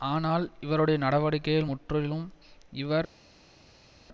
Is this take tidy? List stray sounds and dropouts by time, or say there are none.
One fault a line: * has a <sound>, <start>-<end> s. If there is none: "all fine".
all fine